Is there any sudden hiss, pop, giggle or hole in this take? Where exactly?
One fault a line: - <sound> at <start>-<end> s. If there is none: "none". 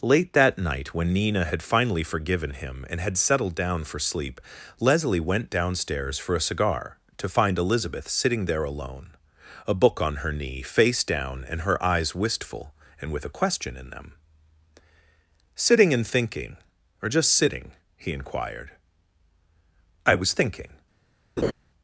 - laugh at 21.4-21.5 s